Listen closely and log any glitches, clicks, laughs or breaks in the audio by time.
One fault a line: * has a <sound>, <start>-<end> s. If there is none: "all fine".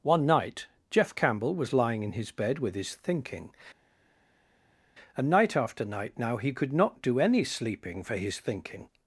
all fine